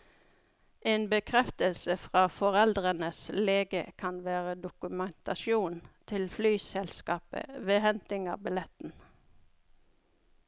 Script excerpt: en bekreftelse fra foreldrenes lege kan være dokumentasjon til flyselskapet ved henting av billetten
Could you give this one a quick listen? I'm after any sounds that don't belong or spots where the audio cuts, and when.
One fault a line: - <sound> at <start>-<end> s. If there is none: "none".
none